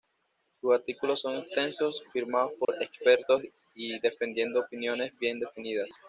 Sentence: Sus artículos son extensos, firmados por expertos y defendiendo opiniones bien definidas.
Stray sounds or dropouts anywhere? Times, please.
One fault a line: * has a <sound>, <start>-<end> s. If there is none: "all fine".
* has a dropout, 2.6-2.7 s